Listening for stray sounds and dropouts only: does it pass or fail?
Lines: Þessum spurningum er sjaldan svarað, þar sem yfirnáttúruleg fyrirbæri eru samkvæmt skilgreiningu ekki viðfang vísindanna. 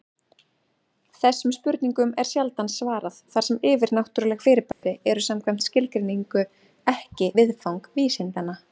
fail